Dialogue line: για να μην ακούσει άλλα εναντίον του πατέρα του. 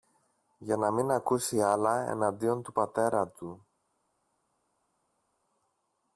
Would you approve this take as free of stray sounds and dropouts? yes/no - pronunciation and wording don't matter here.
yes